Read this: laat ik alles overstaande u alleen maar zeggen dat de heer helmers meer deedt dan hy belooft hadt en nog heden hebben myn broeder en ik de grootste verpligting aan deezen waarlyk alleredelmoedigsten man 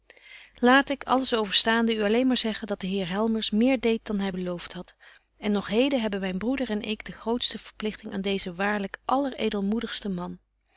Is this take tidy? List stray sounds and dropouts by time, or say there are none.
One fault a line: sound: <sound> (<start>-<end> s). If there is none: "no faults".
no faults